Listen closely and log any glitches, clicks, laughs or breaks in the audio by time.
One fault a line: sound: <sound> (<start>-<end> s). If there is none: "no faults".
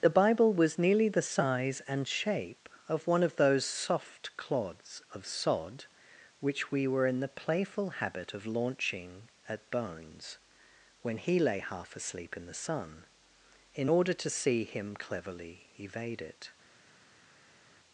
no faults